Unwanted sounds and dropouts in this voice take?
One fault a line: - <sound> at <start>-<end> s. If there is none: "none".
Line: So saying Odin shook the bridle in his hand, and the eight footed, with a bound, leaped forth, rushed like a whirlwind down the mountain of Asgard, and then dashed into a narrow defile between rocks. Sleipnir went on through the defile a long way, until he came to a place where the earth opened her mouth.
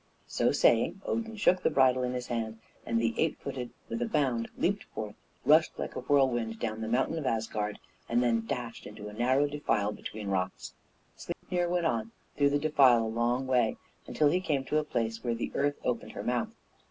- dropout at 11.3-11.4 s